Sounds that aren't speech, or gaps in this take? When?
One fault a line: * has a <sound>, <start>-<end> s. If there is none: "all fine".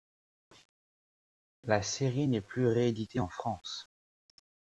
all fine